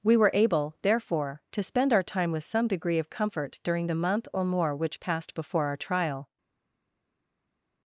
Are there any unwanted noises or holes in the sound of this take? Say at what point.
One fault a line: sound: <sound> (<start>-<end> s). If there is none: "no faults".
no faults